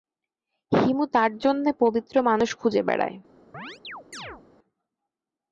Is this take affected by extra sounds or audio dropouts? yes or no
yes